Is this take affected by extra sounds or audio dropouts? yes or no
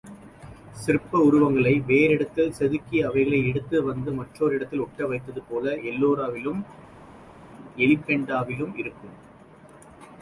no